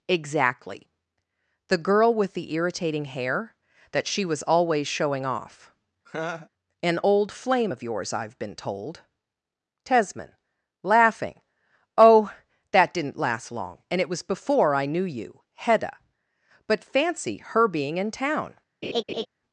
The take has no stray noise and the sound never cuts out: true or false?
false